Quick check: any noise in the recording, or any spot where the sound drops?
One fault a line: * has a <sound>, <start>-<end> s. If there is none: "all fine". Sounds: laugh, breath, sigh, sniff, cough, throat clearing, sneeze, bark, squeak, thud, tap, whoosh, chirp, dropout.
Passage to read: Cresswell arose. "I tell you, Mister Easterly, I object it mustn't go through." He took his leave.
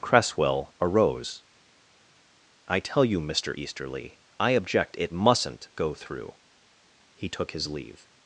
all fine